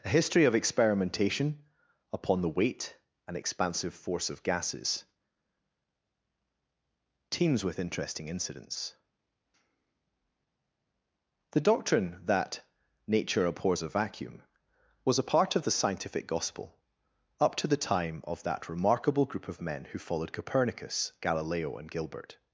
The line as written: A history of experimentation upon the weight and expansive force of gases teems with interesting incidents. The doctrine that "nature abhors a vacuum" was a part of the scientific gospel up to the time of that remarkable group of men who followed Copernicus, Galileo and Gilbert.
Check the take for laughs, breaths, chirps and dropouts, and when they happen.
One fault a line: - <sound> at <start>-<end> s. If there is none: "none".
none